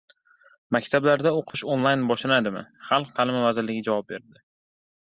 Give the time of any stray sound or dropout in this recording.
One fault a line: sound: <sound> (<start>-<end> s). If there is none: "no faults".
sound: dropout (1.5-1.5 s)